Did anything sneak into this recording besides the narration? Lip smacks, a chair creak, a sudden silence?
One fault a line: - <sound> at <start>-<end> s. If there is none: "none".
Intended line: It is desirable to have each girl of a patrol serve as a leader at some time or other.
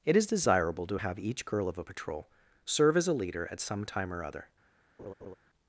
- laugh at 5.0-5.4 s